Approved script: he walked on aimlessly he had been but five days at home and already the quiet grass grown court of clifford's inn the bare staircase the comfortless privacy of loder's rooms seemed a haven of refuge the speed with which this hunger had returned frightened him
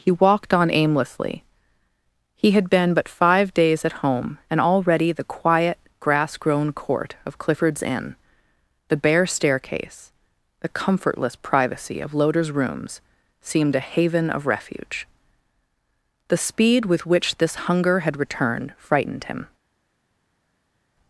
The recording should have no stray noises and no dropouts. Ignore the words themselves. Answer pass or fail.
pass